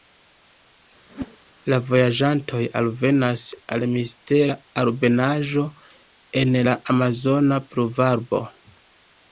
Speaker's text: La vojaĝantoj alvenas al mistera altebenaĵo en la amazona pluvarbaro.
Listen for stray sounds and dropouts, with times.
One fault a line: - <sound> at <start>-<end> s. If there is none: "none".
- whoosh at 1.1-1.4 s